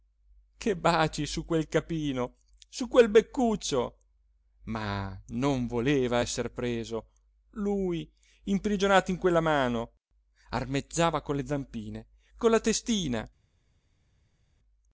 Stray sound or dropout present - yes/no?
no